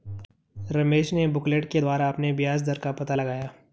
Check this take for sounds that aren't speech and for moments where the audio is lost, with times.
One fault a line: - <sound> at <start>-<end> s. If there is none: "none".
none